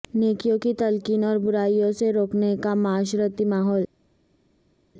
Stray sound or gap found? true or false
false